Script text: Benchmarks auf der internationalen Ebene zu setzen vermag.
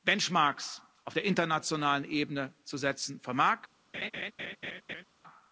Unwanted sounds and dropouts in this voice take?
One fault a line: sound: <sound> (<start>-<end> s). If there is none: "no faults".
sound: laugh (3.9-5.0 s)